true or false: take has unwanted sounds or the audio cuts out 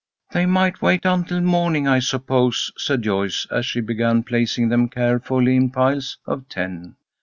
false